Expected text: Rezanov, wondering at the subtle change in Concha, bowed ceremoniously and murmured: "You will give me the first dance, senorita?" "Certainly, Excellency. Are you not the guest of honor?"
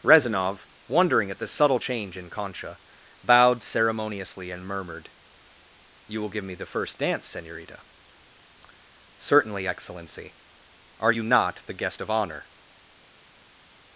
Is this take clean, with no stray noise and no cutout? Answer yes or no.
yes